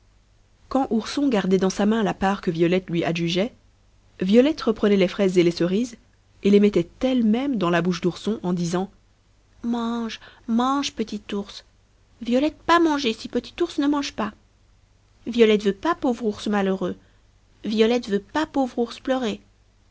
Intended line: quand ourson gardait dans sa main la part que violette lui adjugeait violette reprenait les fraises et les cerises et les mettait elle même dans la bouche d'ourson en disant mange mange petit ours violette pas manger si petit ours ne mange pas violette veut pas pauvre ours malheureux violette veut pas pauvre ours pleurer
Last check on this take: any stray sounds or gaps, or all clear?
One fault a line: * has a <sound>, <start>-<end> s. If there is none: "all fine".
all fine